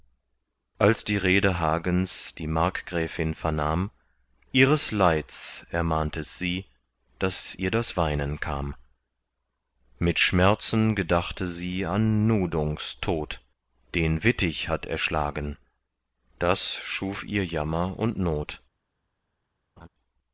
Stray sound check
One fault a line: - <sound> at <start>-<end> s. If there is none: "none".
- laugh at 19.8-19.9 s